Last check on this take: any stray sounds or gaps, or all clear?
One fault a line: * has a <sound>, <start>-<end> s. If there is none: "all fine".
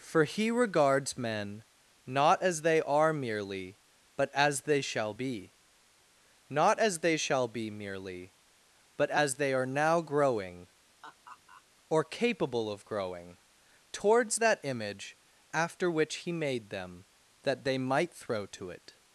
* has a laugh, 11.0-11.6 s